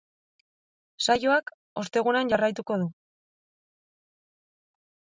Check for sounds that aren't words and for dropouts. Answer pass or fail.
pass